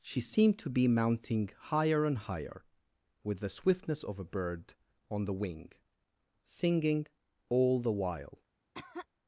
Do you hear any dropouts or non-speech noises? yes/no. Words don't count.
yes